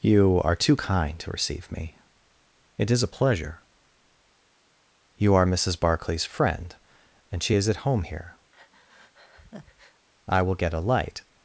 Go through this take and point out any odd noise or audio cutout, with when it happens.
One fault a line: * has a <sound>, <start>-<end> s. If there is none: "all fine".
* has a breath, 8.5-10.1 s